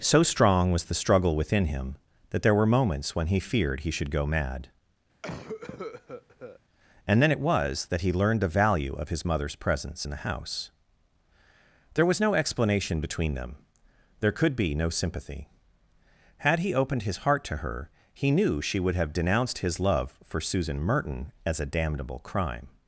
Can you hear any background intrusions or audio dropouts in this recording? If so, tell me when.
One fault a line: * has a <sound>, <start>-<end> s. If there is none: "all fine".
* has a cough, 5.2-6.6 s